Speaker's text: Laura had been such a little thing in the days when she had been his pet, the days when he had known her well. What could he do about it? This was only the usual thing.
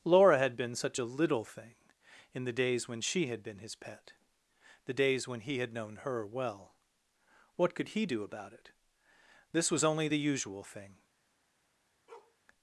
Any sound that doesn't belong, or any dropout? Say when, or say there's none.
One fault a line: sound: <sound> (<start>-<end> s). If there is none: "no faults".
sound: bark (12.1-12.4 s)